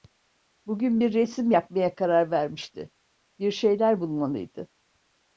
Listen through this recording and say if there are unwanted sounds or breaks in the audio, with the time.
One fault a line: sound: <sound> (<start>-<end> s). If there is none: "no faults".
no faults